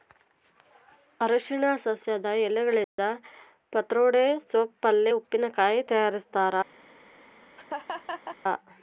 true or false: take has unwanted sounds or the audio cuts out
true